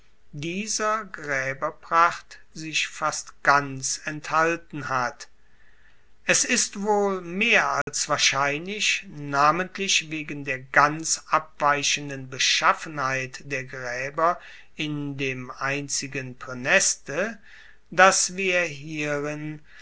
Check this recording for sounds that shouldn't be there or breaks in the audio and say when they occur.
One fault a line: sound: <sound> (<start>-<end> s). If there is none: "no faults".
sound: dropout (7.8-7.9 s)